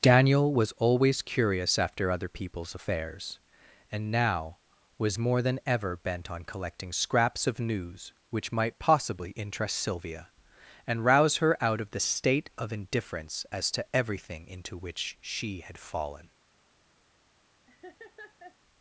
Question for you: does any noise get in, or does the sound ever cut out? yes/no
yes